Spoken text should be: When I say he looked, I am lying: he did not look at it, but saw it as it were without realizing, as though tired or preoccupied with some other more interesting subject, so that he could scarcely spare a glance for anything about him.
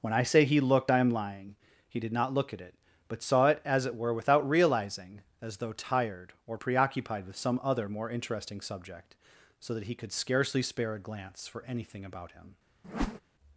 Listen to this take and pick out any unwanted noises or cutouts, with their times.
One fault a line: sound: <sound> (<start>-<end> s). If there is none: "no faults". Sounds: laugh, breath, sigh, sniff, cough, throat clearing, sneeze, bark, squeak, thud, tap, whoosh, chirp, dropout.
sound: whoosh (12.8-13.2 s)